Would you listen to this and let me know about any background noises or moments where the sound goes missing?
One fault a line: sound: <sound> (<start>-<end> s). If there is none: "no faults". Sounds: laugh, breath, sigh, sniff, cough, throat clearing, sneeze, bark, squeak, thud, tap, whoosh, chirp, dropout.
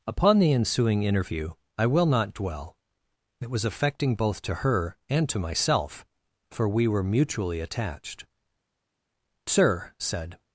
no faults